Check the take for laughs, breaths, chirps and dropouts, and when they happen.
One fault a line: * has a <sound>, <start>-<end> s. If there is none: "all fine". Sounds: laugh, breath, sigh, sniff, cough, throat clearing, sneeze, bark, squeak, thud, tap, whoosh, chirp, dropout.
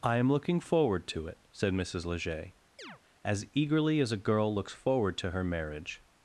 * has a chirp, 2.8-3.0 s